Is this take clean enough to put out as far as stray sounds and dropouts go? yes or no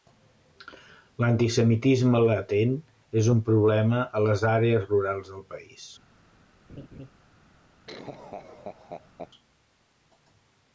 no